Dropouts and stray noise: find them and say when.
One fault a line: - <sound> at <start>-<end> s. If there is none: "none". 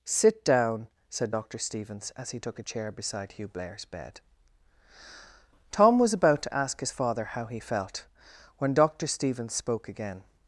none